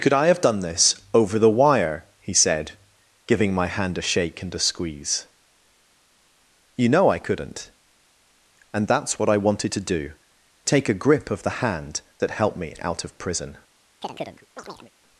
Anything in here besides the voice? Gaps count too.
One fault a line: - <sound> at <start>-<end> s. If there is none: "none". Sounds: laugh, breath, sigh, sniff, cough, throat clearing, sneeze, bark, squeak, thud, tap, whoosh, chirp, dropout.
- chirp at 14.0-14.9 s